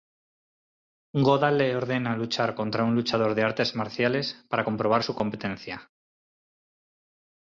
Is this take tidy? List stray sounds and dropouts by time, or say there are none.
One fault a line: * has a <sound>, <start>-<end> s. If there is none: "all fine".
all fine